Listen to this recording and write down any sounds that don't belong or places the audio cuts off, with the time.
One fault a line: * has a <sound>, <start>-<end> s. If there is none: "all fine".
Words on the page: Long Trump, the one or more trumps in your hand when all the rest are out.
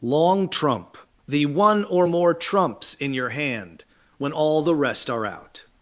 all fine